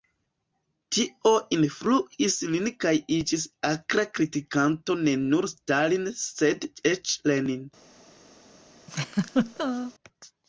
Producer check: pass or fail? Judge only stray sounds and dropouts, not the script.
fail